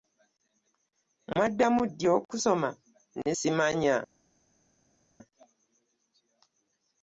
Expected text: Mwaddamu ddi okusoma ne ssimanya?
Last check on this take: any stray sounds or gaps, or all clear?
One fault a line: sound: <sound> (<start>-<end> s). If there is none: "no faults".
no faults